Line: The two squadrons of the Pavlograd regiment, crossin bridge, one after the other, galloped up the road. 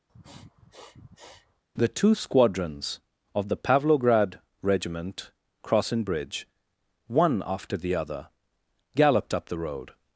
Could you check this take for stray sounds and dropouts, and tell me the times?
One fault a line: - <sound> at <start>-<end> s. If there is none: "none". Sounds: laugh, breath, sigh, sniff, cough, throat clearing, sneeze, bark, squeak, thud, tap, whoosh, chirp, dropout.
- sniff at 0.1-1.6 s